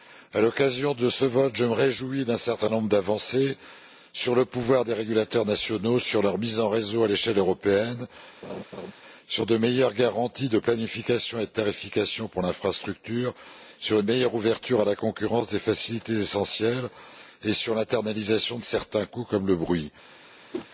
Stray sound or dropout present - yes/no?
yes